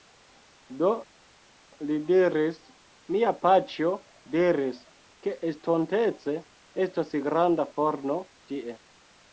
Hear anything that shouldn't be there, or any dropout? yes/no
no